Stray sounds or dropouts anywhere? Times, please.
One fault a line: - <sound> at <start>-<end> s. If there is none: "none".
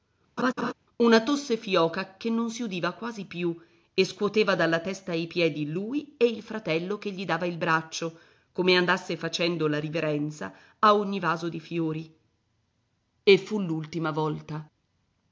- laugh at 0.4-0.7 s